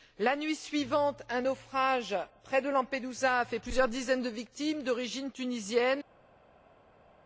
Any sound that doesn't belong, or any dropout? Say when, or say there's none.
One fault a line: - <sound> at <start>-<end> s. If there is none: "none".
none